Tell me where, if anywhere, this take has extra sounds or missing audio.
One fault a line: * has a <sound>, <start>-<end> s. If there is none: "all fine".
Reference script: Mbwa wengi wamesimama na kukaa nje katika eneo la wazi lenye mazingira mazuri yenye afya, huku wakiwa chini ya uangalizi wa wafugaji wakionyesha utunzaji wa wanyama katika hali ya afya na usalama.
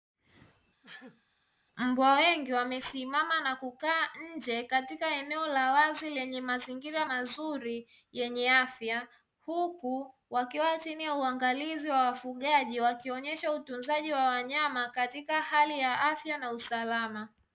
* has a sneeze, 0.8-1.2 s